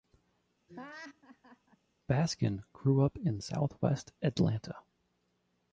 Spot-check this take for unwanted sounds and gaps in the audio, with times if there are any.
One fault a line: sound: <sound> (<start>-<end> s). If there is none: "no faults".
sound: laugh (0.7-1.8 s)